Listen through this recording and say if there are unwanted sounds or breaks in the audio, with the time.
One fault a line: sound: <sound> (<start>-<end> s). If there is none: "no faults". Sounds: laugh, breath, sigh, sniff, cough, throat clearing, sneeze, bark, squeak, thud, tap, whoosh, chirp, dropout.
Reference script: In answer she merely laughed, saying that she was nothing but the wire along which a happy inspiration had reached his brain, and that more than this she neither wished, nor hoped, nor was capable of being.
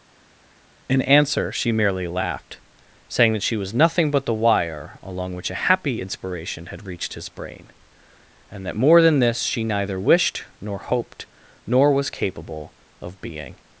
no faults